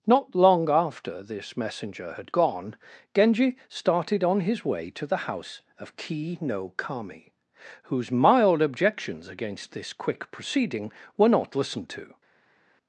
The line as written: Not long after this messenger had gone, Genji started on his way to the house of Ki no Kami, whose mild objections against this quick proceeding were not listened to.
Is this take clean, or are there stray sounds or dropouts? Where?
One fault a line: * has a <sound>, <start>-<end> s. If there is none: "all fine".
all fine